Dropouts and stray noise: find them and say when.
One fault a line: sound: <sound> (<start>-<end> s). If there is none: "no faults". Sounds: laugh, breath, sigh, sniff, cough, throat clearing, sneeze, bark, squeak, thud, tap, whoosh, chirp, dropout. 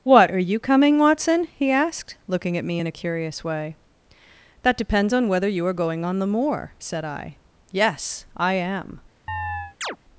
sound: chirp (9.3-10.0 s)